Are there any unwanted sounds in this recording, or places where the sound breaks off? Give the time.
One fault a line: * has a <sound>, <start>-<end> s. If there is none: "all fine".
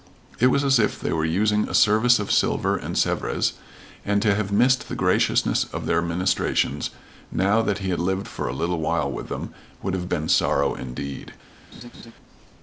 * has a laugh, 11.7-12.1 s